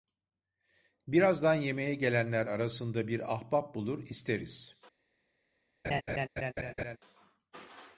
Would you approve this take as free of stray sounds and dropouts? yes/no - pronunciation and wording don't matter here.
no